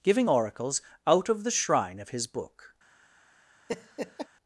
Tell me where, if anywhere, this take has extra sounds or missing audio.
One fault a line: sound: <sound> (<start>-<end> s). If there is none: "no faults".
sound: laugh (3.7-4.3 s)